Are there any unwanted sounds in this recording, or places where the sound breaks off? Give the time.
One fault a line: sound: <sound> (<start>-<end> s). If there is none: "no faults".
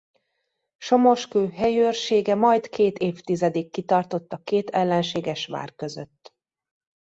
no faults